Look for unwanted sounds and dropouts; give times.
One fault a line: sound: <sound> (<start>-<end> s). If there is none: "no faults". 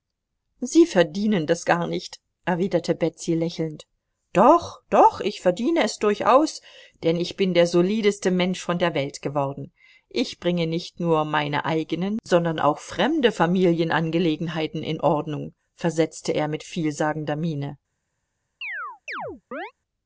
sound: chirp (18.6-19.7 s)